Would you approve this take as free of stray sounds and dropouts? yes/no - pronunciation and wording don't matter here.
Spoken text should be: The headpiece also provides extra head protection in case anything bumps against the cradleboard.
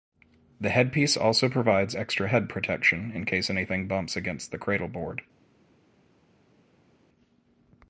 yes